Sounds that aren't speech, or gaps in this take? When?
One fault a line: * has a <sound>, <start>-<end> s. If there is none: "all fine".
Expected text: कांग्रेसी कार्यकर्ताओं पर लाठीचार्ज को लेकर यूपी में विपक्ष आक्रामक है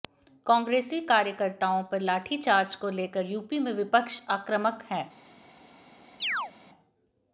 * has a chirp, 6.2-6.5 s